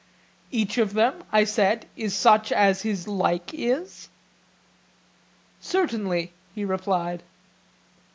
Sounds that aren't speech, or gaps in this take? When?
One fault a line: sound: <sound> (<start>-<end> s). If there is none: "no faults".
no faults